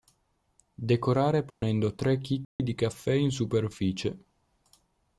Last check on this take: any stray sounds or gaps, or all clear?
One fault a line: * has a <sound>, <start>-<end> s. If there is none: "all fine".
* has a dropout, 1.5-1.6 s
* has a dropout, 2.4-2.6 s